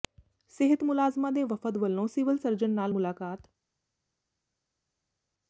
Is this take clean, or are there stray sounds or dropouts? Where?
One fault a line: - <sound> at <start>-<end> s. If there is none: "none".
none